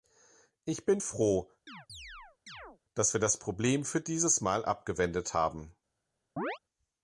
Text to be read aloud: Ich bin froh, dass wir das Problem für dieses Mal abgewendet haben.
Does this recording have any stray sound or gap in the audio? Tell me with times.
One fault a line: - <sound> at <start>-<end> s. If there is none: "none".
- chirp at 1.7-2.8 s
- chirp at 6.4-6.6 s